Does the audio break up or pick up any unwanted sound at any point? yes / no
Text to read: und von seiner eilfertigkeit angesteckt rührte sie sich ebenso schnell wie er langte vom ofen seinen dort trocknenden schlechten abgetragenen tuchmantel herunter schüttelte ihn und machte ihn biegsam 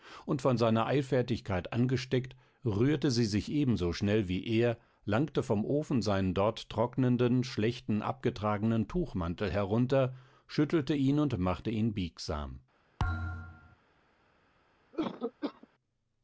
yes